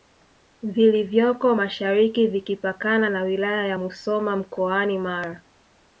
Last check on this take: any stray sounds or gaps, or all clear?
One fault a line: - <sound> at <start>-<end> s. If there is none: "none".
none